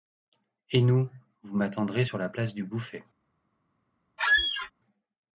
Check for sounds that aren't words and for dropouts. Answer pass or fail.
fail